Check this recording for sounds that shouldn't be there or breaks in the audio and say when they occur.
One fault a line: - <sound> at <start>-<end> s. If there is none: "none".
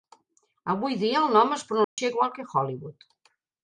- dropout at 1.8-2.0 s